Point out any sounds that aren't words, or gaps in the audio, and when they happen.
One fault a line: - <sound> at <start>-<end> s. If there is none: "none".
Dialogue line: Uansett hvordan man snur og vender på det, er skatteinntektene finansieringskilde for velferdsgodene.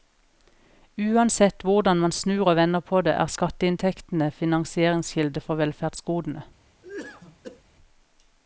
- cough at 6.8-7.6 s